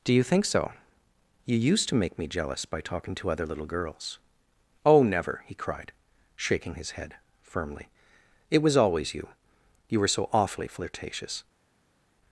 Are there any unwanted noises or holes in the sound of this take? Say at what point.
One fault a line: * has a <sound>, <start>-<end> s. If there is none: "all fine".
all fine